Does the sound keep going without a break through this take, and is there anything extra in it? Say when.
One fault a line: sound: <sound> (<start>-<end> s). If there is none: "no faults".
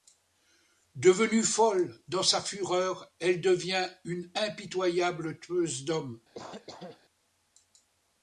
sound: cough (6.3-7.0 s)